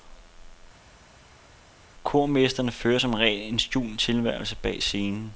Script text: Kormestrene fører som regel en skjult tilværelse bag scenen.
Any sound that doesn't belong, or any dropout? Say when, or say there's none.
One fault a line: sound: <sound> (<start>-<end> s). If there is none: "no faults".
no faults